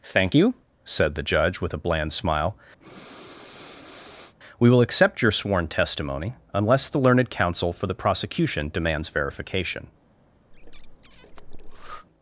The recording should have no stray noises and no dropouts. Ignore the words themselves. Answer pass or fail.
fail